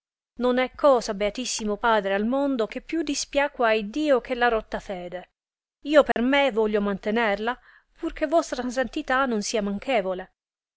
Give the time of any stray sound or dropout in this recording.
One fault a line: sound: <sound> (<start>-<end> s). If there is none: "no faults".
sound: dropout (6.1-6.2 s)